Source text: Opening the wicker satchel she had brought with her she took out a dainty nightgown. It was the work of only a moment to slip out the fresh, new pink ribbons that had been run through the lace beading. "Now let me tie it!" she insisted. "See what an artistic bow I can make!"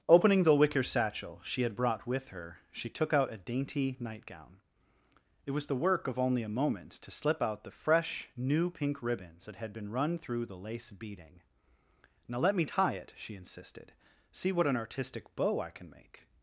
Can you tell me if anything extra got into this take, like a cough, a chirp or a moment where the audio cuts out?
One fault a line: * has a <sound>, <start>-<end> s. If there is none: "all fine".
all fine